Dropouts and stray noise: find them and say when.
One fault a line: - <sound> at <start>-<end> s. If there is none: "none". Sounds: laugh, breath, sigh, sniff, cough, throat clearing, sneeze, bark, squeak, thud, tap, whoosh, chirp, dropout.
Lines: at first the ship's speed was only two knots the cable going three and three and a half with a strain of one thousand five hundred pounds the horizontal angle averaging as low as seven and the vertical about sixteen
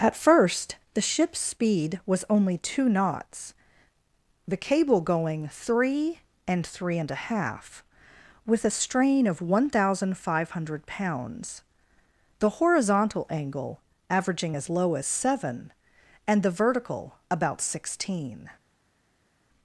none